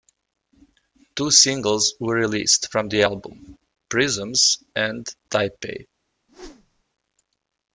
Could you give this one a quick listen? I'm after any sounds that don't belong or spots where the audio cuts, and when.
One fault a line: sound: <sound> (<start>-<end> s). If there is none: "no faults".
sound: whoosh (6.3-6.8 s)